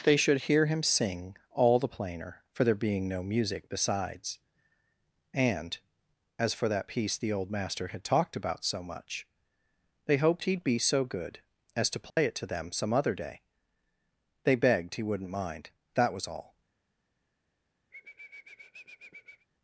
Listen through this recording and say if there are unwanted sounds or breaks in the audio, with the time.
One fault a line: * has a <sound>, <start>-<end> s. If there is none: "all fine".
* has a dropout, 12.1-12.2 s
* has a sniff, 17.9-19.5 s